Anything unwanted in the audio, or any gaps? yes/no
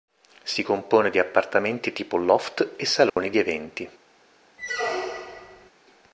yes